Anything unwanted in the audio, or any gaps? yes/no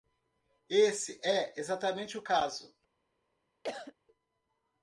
yes